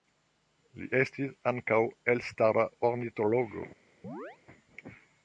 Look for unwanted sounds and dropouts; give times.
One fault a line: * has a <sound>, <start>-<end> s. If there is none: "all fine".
* has a chirp, 4.0-4.4 s